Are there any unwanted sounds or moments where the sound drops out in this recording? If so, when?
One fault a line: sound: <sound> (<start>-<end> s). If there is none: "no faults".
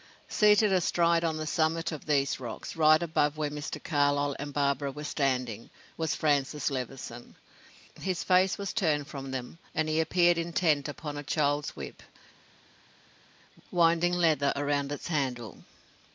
no faults